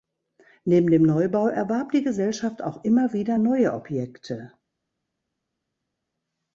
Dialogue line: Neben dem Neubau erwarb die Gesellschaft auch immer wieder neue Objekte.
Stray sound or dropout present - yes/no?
no